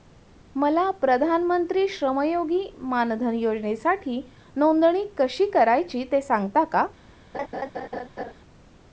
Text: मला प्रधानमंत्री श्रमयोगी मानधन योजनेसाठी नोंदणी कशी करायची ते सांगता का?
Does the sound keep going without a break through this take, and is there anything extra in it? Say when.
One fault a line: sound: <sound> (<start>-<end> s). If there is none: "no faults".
sound: laugh (7.3-8.3 s)